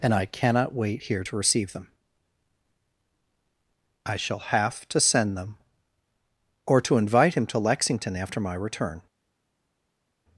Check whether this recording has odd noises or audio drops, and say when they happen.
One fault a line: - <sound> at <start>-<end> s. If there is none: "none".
none